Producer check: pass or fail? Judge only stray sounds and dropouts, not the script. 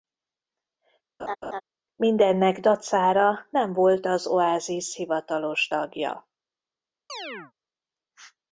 fail